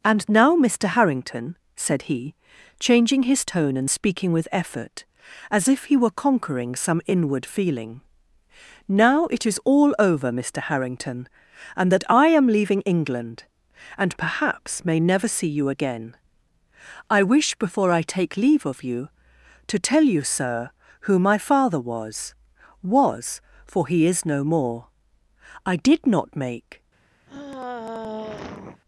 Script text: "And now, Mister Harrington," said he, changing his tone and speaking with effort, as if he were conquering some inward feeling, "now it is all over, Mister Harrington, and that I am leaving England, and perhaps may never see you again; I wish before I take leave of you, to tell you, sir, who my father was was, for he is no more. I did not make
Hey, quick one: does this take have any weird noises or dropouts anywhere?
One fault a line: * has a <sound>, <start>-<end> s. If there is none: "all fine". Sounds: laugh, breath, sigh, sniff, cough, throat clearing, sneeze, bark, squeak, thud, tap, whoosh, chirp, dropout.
* has a sigh, 27.3-28.8 s